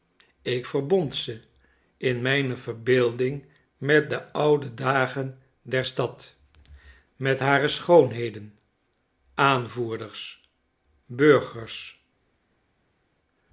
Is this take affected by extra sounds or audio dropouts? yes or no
no